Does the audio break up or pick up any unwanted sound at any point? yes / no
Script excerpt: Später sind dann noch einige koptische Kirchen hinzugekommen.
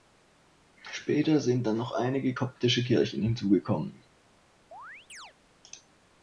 yes